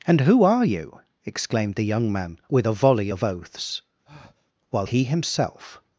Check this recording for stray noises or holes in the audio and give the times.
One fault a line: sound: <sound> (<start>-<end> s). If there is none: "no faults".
sound: breath (4.0-4.5 s)